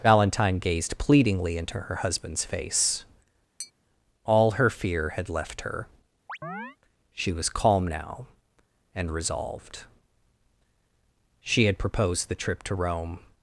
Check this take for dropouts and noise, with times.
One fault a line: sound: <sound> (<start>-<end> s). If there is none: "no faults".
sound: tap (3.6-3.7 s)
sound: chirp (6.3-6.8 s)